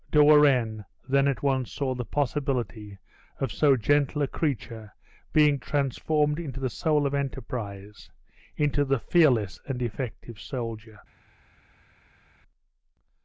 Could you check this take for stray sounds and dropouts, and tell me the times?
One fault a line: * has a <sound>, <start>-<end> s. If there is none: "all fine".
all fine